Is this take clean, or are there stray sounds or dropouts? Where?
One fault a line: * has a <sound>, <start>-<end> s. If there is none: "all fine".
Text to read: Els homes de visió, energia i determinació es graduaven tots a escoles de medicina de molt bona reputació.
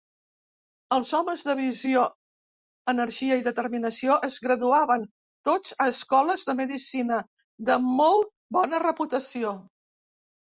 all fine